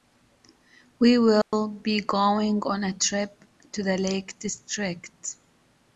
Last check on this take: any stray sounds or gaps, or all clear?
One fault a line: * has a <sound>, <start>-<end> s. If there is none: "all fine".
* has a dropout, 1.4-1.5 s